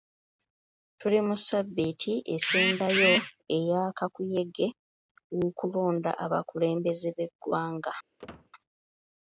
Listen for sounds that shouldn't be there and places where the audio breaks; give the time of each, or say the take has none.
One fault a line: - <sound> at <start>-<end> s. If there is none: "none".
- squeak at 8.2-8.5 s